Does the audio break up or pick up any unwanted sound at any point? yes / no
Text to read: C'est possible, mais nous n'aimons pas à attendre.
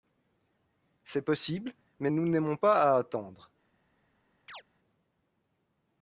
yes